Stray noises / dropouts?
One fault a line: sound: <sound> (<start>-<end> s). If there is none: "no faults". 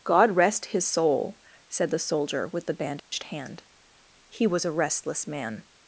sound: dropout (3.0-3.1 s)